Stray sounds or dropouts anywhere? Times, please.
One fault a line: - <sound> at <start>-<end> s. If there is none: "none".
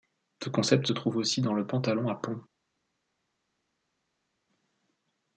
none